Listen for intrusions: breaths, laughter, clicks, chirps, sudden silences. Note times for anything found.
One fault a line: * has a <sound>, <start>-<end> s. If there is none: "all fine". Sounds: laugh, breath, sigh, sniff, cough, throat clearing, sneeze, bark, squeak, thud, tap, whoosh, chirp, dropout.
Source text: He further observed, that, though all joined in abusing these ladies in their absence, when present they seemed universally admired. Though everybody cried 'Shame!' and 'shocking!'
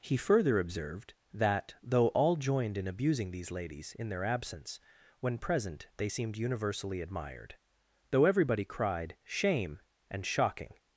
all fine